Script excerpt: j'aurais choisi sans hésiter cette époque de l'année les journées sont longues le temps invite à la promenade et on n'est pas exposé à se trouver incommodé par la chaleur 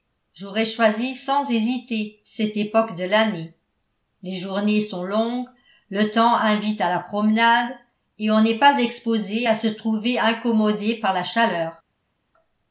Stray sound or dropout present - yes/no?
no